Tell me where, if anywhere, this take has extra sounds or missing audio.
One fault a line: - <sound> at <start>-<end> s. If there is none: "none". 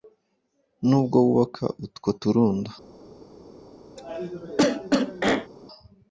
- cough at 4.0-5.5 s